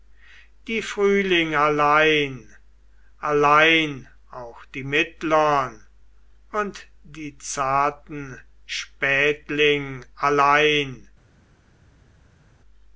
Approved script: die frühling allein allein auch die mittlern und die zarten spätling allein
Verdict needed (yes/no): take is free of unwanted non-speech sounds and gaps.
yes